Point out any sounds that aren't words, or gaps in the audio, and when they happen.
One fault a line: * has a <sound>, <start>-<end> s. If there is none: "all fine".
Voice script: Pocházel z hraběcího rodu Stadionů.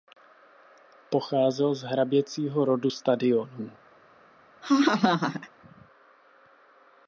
* has a laugh, 4.6-5.5 s